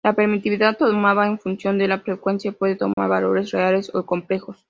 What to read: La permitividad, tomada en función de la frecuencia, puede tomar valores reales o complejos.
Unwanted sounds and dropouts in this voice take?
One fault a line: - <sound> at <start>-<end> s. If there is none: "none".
- dropout at 2.9-3.0 s